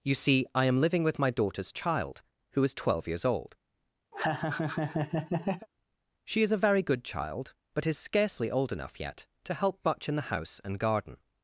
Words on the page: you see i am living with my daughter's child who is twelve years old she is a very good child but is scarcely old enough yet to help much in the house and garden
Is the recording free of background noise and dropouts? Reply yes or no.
no